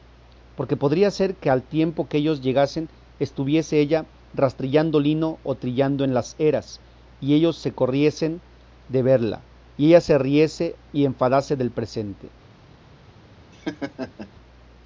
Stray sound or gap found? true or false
true